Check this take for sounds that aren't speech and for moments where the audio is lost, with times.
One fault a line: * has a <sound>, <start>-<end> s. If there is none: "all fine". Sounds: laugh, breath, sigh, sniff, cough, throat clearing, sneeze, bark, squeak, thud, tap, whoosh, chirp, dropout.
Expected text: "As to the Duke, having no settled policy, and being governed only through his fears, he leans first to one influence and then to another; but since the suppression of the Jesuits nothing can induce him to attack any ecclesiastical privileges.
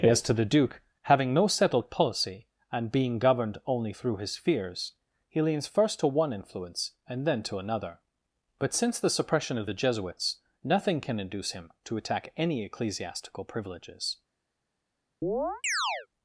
* has a chirp, 15.2-16.1 s